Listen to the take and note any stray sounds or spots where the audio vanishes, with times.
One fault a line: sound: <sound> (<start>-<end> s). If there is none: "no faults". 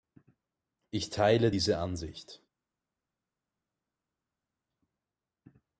no faults